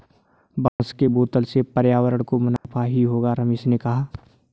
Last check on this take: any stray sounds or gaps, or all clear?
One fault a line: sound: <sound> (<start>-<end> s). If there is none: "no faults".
sound: dropout (0.7-0.8 s)
sound: dropout (2.6-2.6 s)